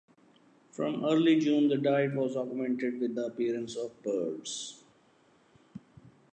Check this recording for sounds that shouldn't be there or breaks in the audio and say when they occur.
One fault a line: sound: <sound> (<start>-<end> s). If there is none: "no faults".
no faults